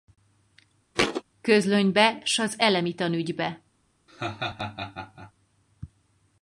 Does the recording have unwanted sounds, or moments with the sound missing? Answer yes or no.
yes